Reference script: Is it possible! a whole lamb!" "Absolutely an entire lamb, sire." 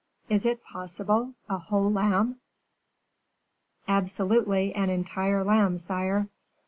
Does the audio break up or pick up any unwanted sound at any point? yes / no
no